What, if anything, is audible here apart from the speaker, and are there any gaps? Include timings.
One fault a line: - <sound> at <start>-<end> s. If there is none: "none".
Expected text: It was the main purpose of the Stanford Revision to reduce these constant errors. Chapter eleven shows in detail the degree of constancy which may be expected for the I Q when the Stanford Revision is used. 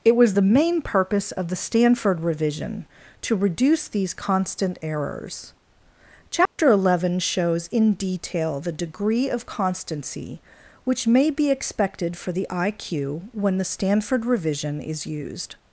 - dropout at 6.5-6.6 s